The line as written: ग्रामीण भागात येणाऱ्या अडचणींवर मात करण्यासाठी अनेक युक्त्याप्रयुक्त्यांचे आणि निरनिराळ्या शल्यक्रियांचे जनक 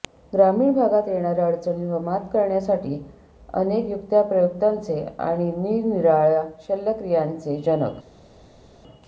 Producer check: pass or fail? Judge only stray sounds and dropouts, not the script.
pass